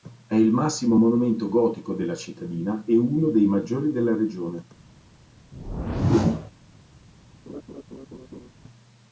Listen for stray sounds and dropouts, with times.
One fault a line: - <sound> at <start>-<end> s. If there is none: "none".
- whoosh at 5.5-6.5 s
- laugh at 7.5-8.5 s